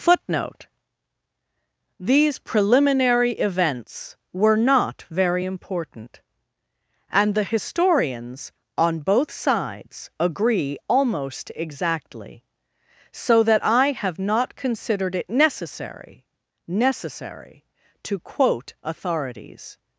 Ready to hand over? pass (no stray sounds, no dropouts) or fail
pass